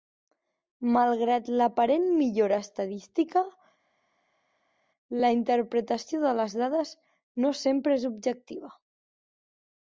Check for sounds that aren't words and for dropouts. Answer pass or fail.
pass